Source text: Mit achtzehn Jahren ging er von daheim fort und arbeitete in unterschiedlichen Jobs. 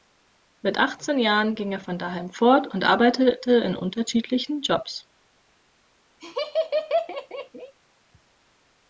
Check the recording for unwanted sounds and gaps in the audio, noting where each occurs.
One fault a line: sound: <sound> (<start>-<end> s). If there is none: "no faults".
sound: laugh (6.2-7.7 s)